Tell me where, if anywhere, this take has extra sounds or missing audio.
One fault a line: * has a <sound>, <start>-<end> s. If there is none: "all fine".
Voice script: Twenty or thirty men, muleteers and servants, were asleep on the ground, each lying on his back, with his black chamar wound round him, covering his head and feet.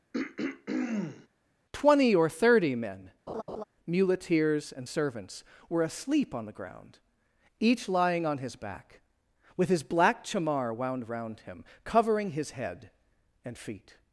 * has a throat clearing, 0.1-1.3 s
* has a laugh, 3.3-3.6 s